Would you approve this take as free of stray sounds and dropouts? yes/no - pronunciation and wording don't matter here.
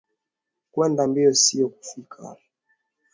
yes